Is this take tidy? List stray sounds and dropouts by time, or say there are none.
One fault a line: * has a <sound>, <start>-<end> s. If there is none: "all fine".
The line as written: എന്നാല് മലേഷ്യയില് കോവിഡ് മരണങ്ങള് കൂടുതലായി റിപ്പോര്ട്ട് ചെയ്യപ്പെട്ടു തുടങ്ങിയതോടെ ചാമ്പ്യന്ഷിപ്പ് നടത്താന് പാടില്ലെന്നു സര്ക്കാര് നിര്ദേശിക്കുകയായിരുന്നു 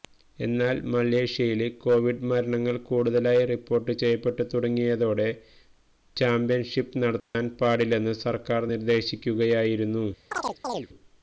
* has a dropout, 7.2-7.3 s
* has a chirp, 10.3-10.9 s